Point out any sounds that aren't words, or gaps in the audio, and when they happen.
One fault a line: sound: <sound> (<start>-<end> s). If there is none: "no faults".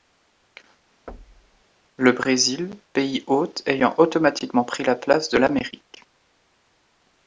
sound: thud (1.1-1.6 s)